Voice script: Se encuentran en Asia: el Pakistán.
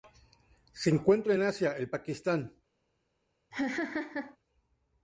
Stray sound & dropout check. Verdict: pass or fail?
fail